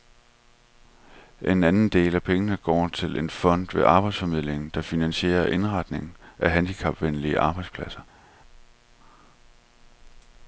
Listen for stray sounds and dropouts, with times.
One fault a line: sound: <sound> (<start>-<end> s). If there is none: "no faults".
no faults